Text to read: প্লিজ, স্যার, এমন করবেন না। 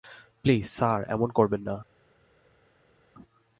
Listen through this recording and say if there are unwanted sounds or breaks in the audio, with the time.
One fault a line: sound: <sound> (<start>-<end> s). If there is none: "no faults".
no faults